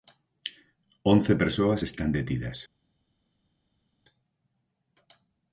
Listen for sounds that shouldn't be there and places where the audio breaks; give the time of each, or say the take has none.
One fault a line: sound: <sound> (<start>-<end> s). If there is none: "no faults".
no faults